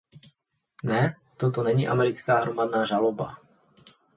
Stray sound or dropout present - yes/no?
no